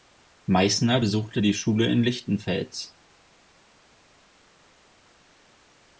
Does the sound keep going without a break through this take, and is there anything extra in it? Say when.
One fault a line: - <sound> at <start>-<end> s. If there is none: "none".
none